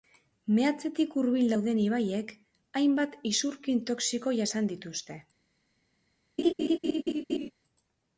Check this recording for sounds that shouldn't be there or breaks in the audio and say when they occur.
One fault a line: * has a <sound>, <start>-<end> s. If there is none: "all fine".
* has a laugh, 6.4-7.5 s